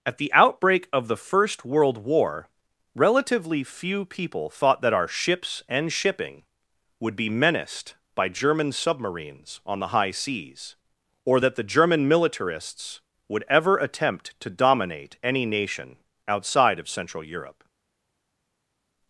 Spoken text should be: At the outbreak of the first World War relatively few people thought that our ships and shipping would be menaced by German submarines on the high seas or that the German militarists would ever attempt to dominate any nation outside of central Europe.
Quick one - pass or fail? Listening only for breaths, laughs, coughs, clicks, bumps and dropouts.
pass